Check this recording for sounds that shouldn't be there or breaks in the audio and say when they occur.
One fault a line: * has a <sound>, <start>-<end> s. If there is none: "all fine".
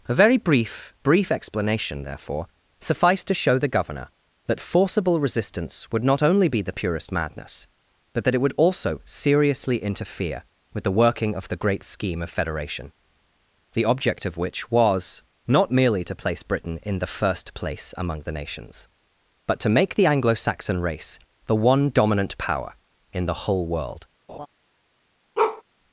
* has a laugh, 24.3-24.5 s
* has a bark, 25.4-25.6 s